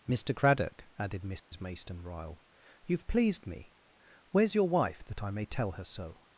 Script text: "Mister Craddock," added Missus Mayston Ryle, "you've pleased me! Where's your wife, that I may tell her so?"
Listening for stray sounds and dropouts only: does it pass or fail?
fail